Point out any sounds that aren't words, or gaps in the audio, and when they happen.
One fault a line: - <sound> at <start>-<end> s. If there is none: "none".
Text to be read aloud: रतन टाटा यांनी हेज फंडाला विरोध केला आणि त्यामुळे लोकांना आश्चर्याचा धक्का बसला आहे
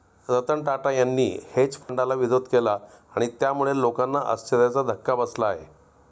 - dropout at 1.8-1.9 s